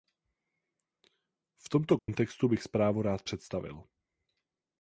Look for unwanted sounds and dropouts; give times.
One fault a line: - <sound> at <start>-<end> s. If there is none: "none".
- dropout at 2.0-2.1 s